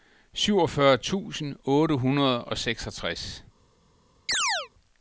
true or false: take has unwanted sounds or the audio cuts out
true